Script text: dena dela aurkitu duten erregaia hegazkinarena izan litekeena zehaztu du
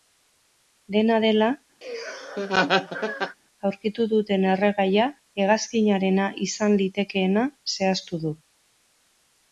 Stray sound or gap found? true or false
true